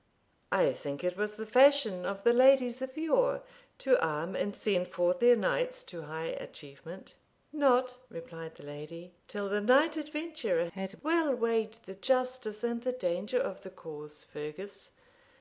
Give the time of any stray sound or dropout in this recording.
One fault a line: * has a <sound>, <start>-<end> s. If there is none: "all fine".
all fine